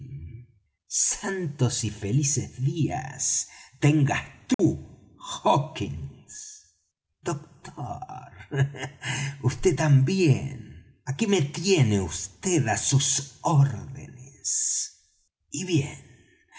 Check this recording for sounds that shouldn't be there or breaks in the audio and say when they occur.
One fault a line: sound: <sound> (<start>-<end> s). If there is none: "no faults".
sound: dropout (4.5-4.6 s)